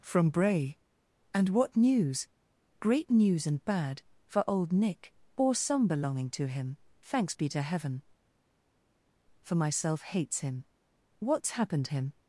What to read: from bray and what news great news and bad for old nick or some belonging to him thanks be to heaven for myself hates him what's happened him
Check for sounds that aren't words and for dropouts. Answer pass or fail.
pass